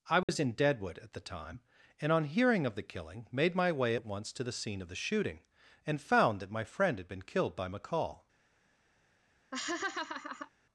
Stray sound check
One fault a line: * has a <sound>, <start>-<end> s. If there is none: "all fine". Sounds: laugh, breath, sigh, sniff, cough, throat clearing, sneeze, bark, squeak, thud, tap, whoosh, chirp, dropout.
* has a dropout, 0.2-0.3 s
* has a laugh, 9.5-10.5 s